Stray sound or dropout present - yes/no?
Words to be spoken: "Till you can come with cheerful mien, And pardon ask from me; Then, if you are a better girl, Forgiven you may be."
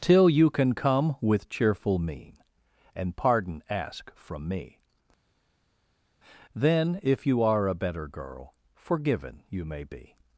no